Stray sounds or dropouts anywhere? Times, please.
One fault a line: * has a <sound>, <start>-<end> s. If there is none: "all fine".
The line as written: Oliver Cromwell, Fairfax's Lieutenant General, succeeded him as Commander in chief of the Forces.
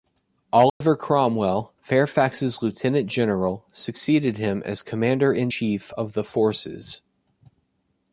* has a dropout, 0.7-0.8 s